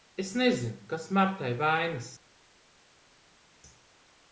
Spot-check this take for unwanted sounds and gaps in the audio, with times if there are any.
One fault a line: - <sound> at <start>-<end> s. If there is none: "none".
none